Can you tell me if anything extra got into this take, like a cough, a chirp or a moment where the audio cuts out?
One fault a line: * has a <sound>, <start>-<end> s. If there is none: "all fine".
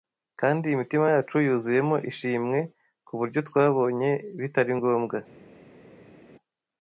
all fine